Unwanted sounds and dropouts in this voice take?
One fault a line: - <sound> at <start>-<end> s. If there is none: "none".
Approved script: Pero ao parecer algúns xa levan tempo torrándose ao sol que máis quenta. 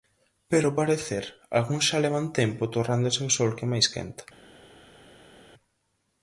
none